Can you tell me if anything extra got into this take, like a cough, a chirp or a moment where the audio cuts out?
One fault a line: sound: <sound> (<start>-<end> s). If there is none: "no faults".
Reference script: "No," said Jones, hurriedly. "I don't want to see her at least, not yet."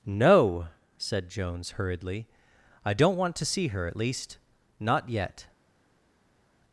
no faults